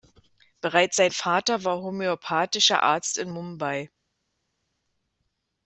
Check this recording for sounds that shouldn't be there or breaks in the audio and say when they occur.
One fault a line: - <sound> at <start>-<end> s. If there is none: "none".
none